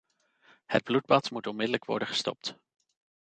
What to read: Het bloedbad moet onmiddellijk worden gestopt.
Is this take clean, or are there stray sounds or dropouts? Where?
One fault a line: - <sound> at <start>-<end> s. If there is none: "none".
none